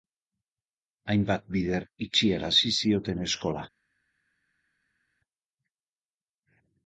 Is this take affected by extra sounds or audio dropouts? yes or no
no